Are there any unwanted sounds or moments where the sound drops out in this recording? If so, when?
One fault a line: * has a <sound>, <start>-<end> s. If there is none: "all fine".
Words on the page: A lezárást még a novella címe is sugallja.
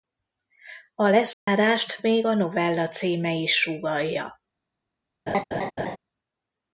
* has a dropout, 1.3-1.5 s
* has a laugh, 5.3-6.0 s